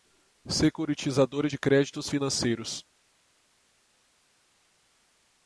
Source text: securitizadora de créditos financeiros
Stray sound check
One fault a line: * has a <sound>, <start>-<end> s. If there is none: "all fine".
all fine